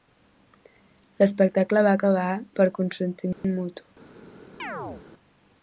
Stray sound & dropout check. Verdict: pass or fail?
fail